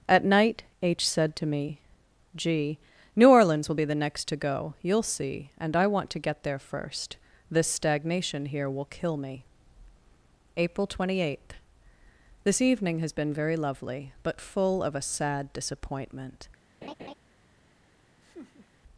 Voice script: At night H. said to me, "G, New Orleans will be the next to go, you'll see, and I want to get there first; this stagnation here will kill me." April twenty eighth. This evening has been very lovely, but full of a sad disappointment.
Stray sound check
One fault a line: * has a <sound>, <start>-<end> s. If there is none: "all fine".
* has a laugh, 16.8-17.1 s
* has a laugh, 18.2-18.7 s